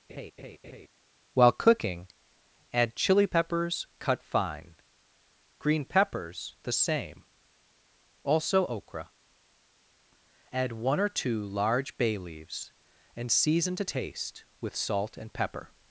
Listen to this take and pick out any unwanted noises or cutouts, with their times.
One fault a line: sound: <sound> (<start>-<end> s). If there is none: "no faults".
sound: laugh (0.1-0.9 s)